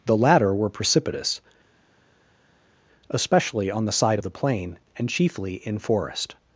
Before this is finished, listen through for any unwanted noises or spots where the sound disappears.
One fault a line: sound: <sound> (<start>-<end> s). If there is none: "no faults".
no faults